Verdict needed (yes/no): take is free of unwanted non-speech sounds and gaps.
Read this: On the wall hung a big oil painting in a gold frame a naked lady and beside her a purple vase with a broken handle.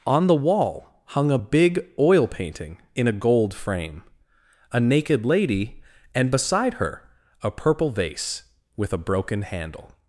yes